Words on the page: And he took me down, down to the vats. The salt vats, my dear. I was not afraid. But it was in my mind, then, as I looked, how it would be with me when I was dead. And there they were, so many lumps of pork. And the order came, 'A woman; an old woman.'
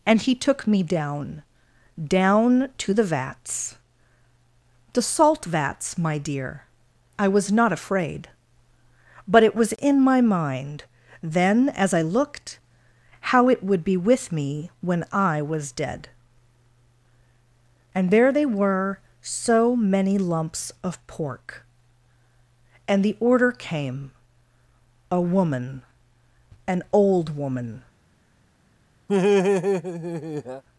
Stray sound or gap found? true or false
true